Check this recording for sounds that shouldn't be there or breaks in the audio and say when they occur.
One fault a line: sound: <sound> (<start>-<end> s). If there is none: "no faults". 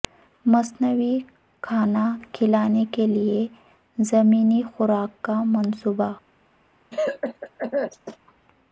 sound: cough (6.9-8.2 s)